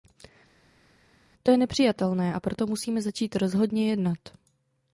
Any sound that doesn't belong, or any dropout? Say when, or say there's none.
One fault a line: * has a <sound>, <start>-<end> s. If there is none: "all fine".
all fine